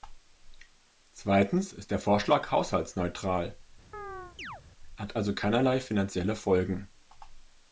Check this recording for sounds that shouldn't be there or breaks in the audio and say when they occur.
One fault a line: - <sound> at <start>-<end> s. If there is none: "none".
- chirp at 3.9-4.6 s